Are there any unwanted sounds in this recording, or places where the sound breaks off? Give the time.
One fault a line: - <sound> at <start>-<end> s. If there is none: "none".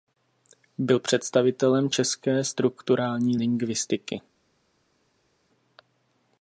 none